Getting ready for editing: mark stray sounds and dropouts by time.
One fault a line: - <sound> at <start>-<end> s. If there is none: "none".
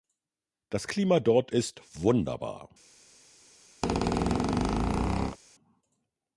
- squeak at 3.8-5.4 s